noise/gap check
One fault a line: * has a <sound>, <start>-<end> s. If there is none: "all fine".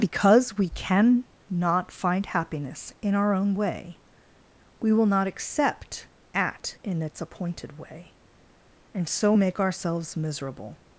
all fine